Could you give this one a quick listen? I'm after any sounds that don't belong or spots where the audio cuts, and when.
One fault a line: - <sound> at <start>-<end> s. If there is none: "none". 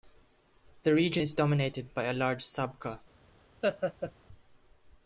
- laugh at 3.6-4.1 s